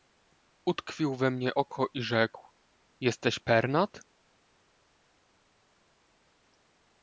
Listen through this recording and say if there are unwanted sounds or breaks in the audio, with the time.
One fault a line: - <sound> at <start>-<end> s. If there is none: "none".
none